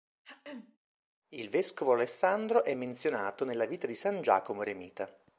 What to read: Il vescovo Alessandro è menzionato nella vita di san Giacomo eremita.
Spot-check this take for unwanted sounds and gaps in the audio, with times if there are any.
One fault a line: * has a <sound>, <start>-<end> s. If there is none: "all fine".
* has a throat clearing, 0.2-0.8 s